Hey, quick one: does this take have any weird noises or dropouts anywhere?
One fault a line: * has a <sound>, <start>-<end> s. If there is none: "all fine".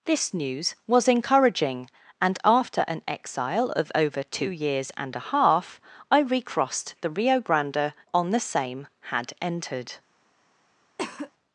* has a cough, 11.0-11.3 s